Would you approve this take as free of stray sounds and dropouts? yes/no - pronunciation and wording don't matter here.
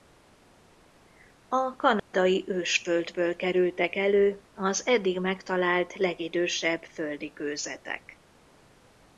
no